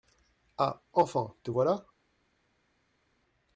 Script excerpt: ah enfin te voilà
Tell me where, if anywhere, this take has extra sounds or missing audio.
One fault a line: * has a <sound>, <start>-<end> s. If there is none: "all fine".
all fine